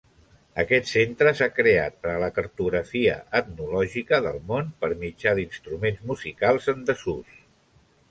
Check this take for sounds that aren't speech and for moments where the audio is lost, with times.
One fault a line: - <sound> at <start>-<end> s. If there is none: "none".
none